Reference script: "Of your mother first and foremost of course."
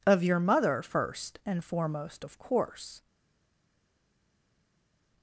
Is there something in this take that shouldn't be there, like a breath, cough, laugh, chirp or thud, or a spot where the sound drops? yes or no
no